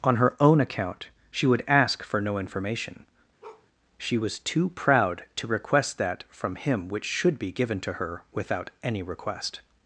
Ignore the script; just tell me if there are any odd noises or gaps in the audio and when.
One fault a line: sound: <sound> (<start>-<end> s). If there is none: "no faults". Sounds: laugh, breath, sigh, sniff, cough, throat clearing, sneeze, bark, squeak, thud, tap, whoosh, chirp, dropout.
sound: bark (3.4-3.7 s)